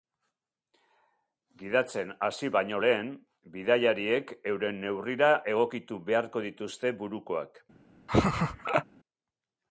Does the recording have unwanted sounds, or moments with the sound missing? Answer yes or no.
yes